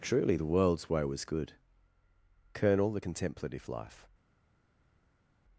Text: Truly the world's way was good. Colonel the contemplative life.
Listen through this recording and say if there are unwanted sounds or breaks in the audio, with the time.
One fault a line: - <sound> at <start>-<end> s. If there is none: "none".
none